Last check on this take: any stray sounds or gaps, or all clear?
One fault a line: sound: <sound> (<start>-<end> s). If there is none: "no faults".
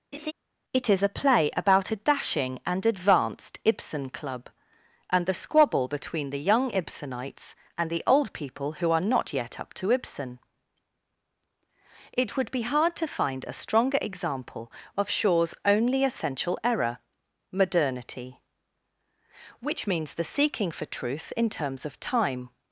sound: laugh (0.1-0.3 s)